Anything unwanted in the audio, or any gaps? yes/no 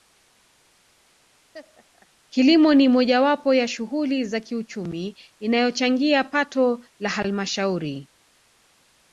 yes